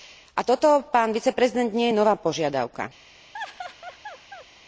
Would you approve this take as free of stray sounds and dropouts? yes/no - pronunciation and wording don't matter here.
no